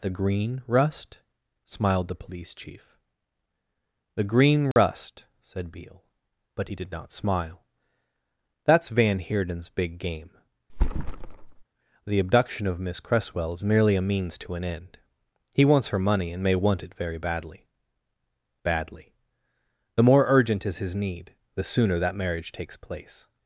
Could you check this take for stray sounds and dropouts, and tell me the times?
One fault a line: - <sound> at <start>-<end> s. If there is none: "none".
- dropout at 4.7-4.8 s
- thud at 10.7-11.6 s